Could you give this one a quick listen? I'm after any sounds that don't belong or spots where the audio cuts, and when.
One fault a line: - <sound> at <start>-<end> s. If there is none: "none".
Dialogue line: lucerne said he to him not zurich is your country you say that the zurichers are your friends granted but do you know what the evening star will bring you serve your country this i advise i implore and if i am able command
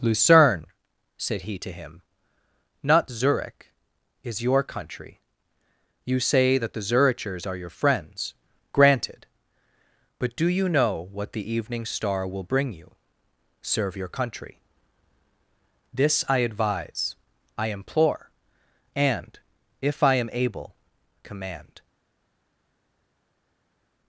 none